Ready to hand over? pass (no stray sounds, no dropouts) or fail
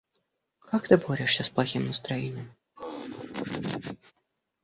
fail